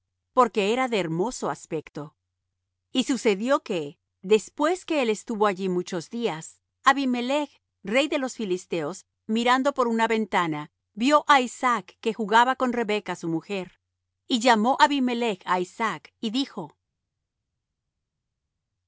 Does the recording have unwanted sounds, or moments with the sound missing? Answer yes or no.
no